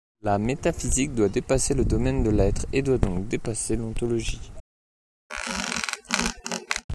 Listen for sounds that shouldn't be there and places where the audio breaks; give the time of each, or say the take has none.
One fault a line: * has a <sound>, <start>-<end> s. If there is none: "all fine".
* has a squeak, 5.3-6.8 s